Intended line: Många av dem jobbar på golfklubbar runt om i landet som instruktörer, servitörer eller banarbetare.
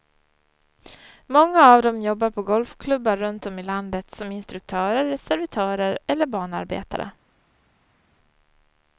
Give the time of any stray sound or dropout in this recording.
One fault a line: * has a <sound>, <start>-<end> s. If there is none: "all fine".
all fine